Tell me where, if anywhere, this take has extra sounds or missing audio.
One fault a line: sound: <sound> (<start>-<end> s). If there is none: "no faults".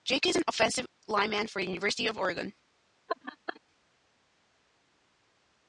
sound: laugh (3.1-3.6 s)